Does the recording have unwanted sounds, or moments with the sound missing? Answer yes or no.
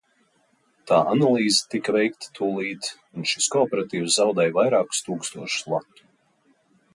no